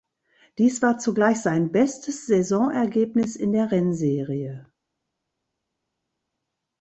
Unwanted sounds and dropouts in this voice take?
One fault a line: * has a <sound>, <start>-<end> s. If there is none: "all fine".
all fine